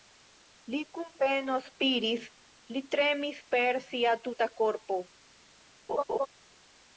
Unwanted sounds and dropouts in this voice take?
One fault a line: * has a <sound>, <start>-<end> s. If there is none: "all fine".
* has a laugh, 5.9-6.3 s